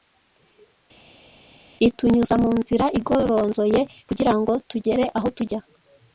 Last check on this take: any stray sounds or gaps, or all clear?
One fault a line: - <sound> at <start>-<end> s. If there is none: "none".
none